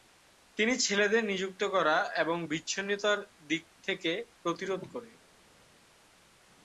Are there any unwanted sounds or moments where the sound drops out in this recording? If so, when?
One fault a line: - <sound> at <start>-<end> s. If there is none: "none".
none